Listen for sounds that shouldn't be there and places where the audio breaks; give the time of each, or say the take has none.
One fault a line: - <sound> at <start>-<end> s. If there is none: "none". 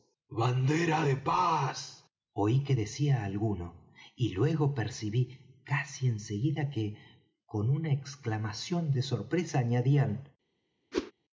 - whoosh at 10.9-11.1 s